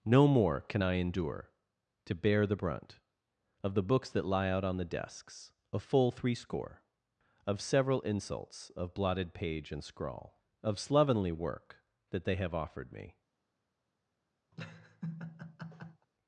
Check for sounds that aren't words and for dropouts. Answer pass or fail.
fail